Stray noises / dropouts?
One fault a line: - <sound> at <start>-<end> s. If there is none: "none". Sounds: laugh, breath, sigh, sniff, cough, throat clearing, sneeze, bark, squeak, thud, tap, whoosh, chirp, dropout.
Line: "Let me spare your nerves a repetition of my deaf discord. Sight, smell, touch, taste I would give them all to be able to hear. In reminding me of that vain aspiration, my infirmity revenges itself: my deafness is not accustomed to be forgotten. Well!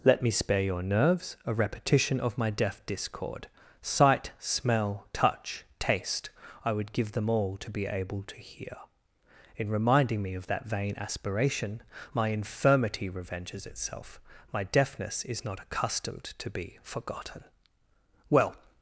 none